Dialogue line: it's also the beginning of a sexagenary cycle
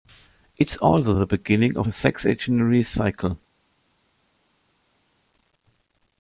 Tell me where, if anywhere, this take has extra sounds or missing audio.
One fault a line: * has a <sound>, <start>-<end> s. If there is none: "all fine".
all fine